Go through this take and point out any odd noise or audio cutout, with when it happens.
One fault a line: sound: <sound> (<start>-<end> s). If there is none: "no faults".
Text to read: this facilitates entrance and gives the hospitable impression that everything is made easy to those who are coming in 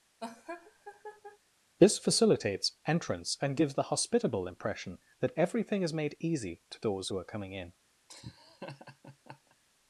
sound: laugh (0.2-1.4 s)
sound: laugh (8.1-9.6 s)